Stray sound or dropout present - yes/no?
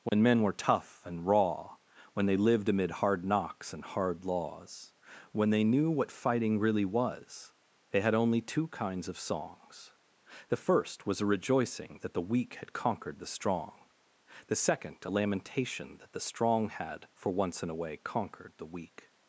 yes